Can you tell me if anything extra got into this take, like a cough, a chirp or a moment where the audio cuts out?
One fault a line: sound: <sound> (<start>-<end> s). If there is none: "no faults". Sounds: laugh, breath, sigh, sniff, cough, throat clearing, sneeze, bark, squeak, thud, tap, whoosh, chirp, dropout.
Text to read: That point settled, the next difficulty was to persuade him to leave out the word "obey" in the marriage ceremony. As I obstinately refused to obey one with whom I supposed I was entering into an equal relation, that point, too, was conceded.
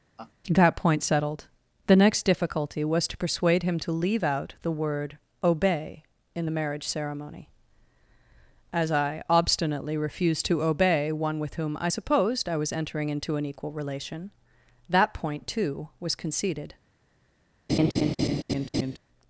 sound: laugh (0.2-0.3 s)
sound: laugh (17.7-19.0 s)